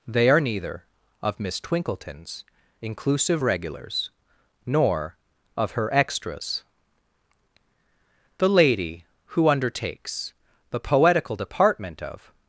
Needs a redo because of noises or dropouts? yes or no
no